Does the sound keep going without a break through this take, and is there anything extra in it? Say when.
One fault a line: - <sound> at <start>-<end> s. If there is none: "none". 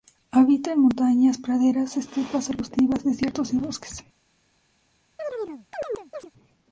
- chirp at 5.2-6.3 s